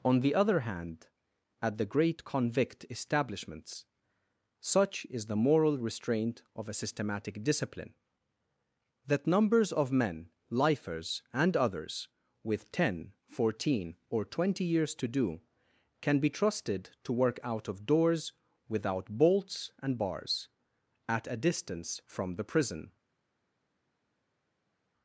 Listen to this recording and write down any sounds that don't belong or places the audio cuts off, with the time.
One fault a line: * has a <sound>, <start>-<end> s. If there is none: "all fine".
all fine